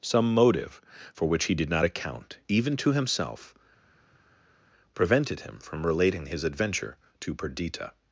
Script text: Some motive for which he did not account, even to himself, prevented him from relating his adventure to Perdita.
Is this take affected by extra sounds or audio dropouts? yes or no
no